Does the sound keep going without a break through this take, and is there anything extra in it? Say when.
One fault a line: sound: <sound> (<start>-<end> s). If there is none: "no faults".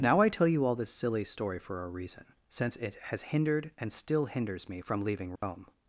sound: dropout (5.4-5.4 s)